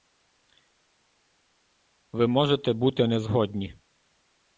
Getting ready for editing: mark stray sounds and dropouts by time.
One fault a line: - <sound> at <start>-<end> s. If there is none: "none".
none